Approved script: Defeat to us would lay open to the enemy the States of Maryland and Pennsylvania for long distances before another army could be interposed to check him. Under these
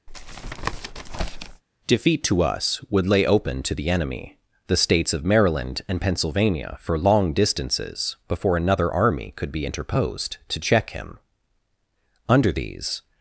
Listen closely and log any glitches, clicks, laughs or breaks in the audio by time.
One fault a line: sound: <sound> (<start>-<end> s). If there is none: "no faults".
sound: tap (0.1-1.6 s)